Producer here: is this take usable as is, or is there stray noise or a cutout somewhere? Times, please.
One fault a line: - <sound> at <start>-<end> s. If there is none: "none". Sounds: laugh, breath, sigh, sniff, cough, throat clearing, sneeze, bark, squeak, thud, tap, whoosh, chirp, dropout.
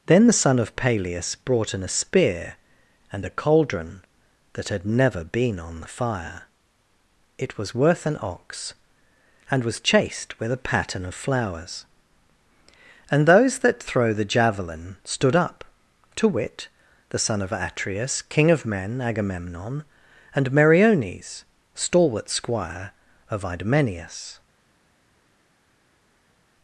none